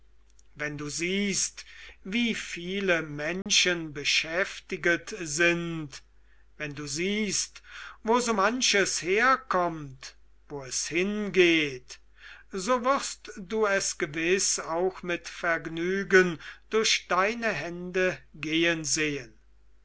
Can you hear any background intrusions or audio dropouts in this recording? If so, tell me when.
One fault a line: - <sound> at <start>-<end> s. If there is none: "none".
- dropout at 3.4-3.5 s